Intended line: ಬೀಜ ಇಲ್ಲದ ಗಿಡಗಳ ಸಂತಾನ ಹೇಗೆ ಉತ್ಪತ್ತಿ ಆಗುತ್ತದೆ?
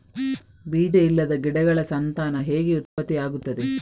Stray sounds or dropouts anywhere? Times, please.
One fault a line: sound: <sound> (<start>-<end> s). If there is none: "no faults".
sound: dropout (2.9-3.0 s)